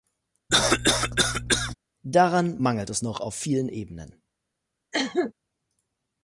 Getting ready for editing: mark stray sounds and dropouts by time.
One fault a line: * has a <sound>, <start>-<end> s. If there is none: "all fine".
* has a cough, 0.5-1.7 s
* has a cough, 4.9-5.3 s